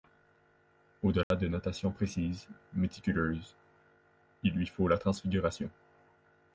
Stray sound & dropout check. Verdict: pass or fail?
fail